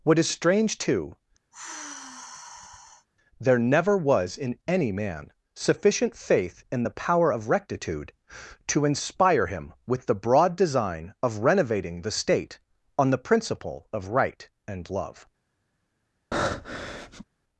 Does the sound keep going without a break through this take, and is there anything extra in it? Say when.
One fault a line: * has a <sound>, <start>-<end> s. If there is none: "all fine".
* has a sigh, 1.5-3.1 s
* has a breath, 16.3-17.2 s